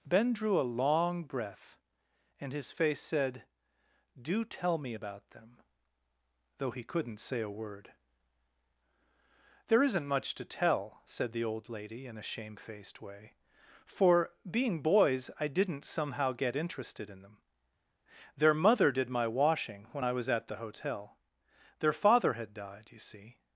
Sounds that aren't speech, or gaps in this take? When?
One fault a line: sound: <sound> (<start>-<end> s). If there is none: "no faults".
no faults